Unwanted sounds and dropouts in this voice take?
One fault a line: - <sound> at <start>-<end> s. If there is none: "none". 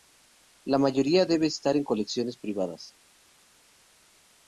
none